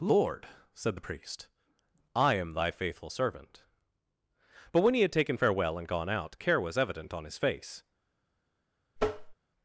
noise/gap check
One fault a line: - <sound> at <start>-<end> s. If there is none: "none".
- tap at 9.0-9.4 s